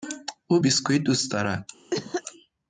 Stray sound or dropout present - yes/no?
yes